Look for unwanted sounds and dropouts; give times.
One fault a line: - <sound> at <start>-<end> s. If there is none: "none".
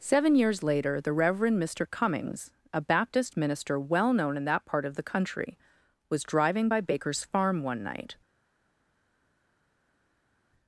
none